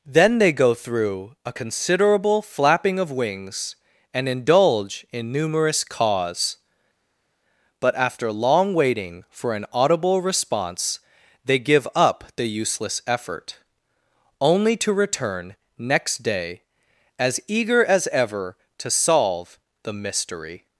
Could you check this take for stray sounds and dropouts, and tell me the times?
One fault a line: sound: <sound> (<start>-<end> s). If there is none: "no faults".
no faults